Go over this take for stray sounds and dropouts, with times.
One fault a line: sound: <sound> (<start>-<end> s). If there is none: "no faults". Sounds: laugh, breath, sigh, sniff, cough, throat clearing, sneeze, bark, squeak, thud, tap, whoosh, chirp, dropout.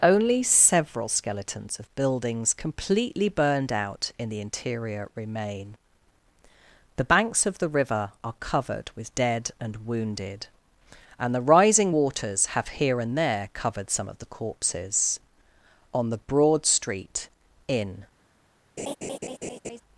sound: laugh (18.8-19.8 s)